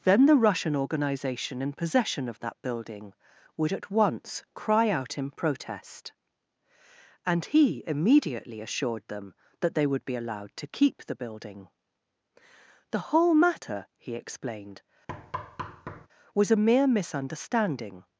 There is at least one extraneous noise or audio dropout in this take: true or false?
true